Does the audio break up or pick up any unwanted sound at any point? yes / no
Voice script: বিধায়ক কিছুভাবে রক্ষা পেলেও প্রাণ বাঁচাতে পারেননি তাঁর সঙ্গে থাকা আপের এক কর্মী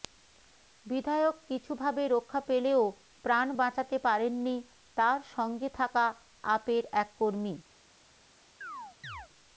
yes